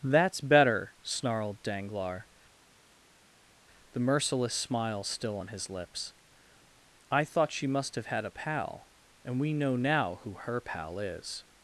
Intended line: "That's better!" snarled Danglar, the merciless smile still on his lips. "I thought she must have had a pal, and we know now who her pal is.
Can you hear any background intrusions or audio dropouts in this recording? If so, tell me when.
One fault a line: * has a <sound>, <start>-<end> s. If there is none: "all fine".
all fine